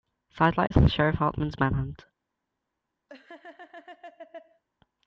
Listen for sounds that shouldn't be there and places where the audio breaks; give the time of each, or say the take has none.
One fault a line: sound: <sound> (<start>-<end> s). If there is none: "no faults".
sound: dropout (0.7-0.7 s)
sound: laugh (3.1-4.6 s)